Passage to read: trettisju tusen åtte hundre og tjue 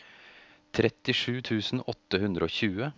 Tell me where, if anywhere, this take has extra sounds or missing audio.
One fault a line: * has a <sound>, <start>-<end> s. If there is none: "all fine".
all fine